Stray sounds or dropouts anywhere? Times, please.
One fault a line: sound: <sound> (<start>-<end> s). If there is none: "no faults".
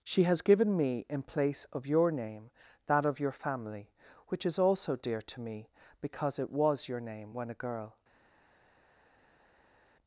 no faults